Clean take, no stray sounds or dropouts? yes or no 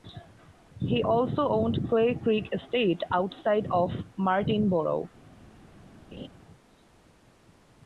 no